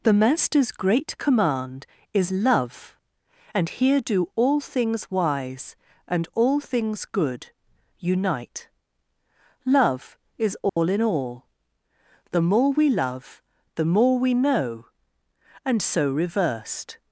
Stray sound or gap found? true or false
true